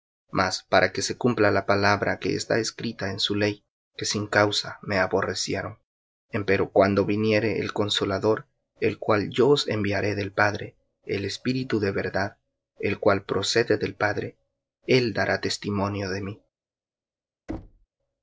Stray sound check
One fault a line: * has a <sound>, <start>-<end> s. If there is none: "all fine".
* has a thud, 17.5-17.9 s